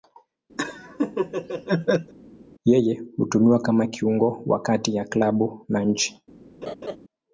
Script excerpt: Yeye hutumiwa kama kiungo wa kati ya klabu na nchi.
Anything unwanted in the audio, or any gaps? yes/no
yes